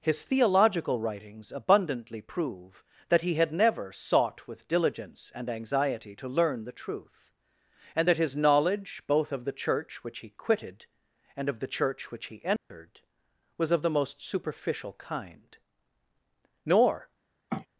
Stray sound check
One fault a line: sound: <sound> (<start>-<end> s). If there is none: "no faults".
sound: dropout (12.6-12.7 s)
sound: sniff (17.5-17.7 s)